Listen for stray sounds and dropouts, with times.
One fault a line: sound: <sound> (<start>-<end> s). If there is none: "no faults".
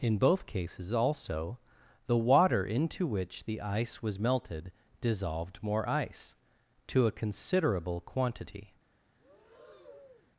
sound: breath (9.2-10.3 s)